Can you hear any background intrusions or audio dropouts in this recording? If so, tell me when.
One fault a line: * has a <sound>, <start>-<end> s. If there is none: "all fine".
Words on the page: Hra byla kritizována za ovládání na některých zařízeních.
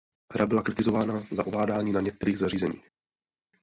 all fine